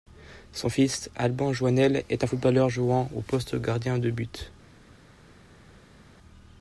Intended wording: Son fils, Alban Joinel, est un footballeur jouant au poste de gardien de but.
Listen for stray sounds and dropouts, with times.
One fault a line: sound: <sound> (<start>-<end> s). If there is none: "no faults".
no faults